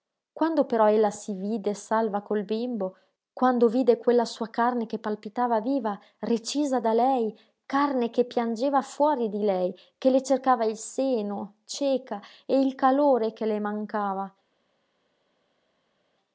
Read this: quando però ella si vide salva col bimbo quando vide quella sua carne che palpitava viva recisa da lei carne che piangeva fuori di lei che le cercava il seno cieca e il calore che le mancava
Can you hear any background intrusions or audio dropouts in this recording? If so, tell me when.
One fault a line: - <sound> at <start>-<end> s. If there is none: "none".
none